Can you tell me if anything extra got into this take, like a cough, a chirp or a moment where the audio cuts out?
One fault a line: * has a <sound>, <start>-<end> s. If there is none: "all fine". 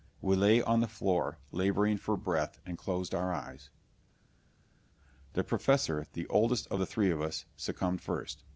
all fine